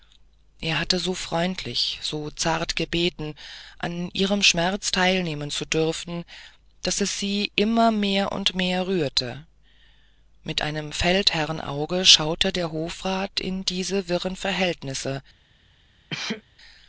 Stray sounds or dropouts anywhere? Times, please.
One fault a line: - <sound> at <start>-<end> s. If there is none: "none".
- sneeze at 16.1-16.4 s